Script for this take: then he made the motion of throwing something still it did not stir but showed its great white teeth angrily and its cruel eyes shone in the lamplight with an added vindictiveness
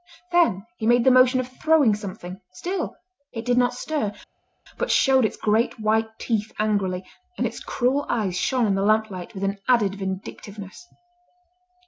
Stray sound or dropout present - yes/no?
no